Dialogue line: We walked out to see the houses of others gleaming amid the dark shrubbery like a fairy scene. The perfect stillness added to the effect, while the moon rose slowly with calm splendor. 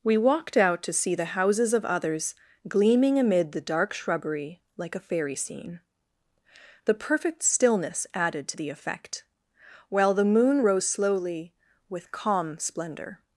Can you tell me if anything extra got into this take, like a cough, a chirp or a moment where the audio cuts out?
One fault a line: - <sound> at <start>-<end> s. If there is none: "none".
none